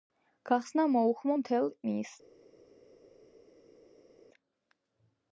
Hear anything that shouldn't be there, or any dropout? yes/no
no